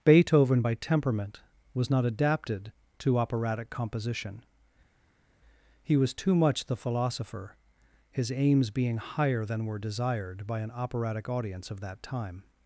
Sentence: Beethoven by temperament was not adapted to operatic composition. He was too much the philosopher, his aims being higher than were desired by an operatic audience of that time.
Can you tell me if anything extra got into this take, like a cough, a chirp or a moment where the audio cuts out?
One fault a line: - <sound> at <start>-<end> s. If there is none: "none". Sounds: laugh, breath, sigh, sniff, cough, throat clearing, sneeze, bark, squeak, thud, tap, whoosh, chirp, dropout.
none